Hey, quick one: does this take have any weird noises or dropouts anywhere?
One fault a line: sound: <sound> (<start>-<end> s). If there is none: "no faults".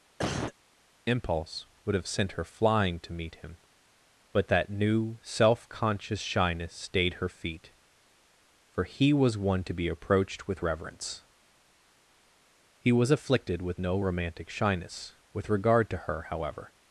sound: cough (0.2-0.5 s)